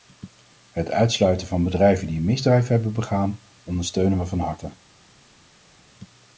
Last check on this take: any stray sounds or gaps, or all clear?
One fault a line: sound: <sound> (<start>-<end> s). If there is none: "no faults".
no faults